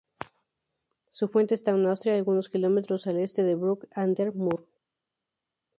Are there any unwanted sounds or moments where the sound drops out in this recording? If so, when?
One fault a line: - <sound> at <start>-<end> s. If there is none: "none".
none